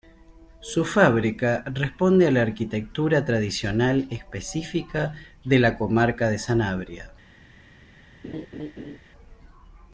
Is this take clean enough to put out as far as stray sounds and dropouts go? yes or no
no